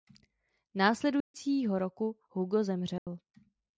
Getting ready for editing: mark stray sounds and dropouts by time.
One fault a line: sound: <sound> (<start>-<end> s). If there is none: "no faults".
sound: dropout (1.2-1.3 s)
sound: dropout (3.0-3.1 s)